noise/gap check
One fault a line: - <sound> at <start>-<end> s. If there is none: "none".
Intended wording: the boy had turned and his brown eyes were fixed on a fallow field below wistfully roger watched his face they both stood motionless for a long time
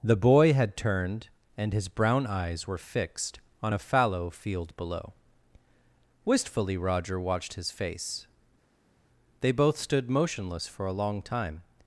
none